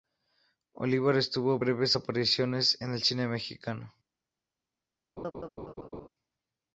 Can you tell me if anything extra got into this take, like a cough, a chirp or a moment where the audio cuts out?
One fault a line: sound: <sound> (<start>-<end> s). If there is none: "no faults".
sound: laugh (5.2-6.1 s)